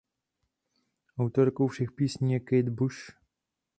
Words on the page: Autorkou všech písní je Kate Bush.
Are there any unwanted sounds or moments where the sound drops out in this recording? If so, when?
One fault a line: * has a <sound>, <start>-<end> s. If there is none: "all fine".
all fine